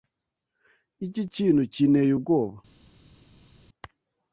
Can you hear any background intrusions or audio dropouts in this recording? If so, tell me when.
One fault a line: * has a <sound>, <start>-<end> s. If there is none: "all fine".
all fine